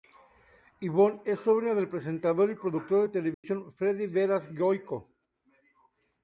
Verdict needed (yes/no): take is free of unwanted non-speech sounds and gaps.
no